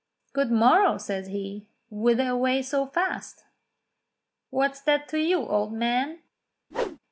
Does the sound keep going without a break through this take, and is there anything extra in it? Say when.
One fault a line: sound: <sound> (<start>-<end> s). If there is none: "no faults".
sound: whoosh (6.7-7.0 s)